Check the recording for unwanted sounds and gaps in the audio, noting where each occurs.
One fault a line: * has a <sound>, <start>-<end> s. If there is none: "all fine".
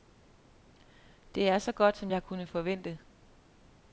all fine